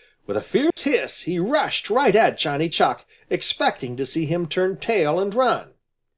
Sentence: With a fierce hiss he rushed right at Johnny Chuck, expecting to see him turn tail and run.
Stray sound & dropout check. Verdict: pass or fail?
fail